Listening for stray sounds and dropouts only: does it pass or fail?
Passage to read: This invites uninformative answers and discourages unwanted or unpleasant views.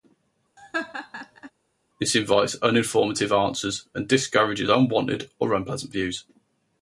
fail